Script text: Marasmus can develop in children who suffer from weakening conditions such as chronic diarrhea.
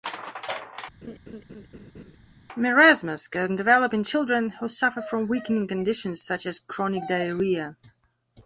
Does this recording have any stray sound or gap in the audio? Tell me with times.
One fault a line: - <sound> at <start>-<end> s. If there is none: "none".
- laugh at 1.0-2.2 s